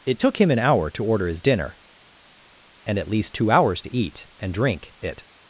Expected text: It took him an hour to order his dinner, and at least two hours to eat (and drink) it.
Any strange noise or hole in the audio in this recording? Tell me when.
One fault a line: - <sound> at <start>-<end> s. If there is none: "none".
none